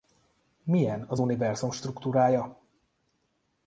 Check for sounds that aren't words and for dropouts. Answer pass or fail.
pass